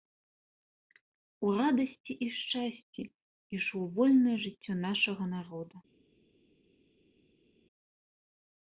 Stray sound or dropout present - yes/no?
no